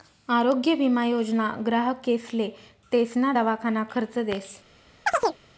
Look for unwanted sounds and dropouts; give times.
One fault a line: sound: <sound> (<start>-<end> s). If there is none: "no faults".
sound: chirp (5.1-5.4 s)